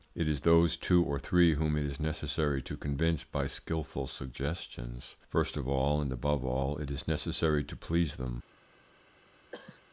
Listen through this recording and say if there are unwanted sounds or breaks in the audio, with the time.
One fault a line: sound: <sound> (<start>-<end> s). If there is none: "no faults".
sound: cough (9.5-9.8 s)